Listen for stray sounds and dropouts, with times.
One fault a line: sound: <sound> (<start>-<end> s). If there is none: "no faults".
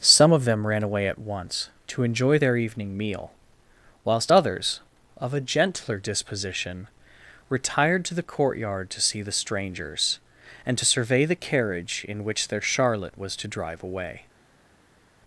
no faults